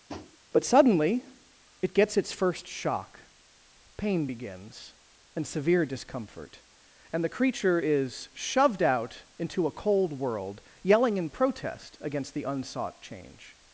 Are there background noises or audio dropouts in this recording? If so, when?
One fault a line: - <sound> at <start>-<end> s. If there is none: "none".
- tap at 0.1-0.4 s